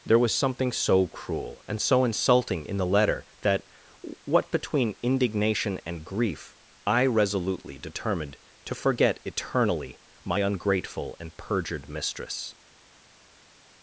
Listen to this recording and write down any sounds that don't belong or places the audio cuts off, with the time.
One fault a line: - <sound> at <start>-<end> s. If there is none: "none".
none